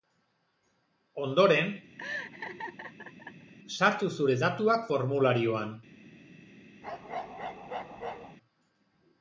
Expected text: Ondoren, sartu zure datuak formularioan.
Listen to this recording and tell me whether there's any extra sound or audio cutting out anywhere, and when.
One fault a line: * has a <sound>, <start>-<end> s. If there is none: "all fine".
* has a laugh, 2.0-3.5 s
* has a bark, 6.8-8.4 s